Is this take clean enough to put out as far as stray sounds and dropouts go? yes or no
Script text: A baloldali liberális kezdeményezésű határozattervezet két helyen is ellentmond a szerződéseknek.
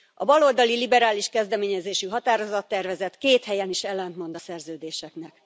yes